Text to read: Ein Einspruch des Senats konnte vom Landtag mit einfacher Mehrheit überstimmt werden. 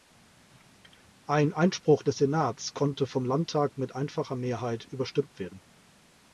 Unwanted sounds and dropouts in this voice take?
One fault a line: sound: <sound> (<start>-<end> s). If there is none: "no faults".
no faults